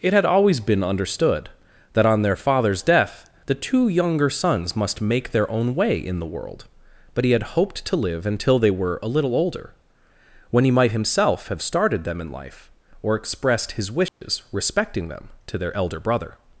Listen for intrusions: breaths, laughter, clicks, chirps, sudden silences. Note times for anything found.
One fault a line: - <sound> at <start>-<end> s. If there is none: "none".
- dropout at 14.1-14.2 s